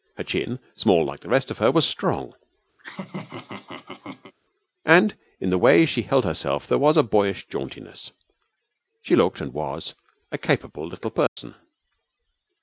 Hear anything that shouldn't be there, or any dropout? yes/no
yes